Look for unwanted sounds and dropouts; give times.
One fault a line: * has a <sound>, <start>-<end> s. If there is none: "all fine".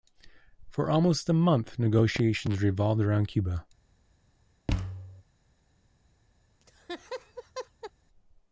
* has a thud, 4.7-5.2 s
* has a laugh, 6.6-7.9 s